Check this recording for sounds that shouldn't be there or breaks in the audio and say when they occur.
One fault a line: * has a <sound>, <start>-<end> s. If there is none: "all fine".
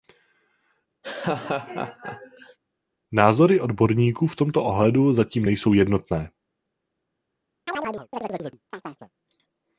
* has a laugh, 1.0-2.6 s
* has a chirp, 7.7-9.1 s